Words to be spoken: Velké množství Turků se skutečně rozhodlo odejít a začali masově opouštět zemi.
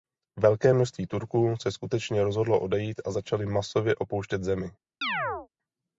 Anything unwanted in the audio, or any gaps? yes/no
yes